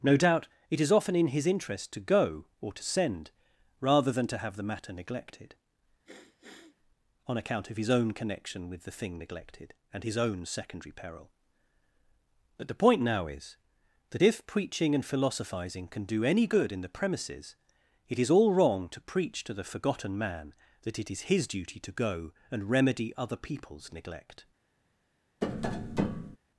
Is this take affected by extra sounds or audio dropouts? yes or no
yes